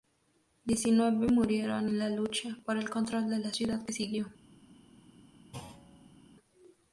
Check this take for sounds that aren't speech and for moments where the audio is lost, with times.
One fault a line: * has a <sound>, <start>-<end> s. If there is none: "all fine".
* has a thud, 5.5-6.2 s